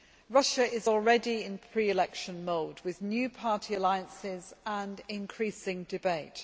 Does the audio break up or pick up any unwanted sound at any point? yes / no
no